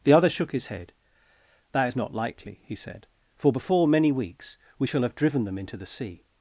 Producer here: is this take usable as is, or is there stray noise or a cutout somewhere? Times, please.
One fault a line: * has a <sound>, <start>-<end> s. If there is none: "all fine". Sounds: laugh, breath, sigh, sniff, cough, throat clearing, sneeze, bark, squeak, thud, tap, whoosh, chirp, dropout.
all fine